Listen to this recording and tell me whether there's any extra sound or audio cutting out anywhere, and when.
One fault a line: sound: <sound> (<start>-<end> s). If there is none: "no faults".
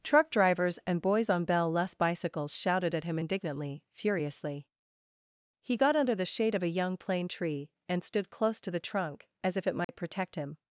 sound: dropout (9.8-9.9 s)